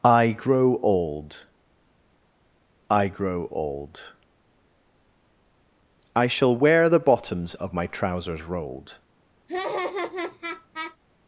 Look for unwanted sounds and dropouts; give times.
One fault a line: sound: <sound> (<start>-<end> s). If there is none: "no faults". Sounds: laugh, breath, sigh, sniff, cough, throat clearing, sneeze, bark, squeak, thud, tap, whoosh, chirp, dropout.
sound: laugh (9.5-11.0 s)